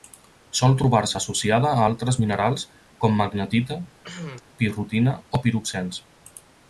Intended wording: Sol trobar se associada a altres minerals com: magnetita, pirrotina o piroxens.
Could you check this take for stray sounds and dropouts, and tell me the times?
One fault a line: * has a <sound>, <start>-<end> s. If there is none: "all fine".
* has a cough, 4.0-4.4 s